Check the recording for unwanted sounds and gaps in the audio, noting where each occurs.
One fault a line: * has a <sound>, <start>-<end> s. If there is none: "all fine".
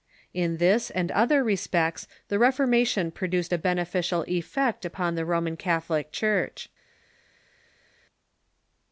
all fine